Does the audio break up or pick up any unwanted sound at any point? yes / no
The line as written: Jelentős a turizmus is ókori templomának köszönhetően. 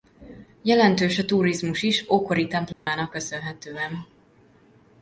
yes